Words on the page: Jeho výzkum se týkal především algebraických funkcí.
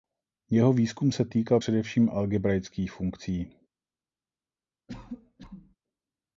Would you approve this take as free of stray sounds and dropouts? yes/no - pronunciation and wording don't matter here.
no